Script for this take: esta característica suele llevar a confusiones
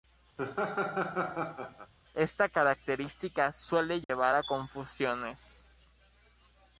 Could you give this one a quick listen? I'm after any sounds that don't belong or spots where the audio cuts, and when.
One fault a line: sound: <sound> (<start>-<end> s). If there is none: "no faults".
sound: laugh (0.4-1.9 s)
sound: dropout (4.0-4.1 s)